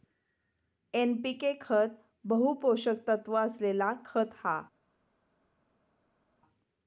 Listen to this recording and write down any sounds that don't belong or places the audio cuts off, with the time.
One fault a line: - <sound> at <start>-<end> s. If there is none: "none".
none